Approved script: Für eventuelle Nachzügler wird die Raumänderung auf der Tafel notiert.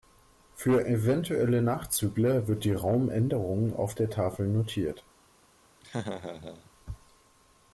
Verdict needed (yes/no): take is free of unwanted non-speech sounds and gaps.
no